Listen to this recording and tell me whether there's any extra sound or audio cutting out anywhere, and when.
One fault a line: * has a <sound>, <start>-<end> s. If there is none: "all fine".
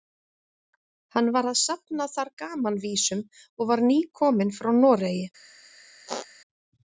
* has a squeak, 6.1-6.3 s